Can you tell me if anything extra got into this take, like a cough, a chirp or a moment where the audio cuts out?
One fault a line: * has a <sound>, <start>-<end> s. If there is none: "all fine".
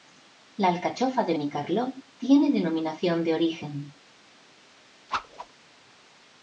* has a whoosh, 5.1-5.5 s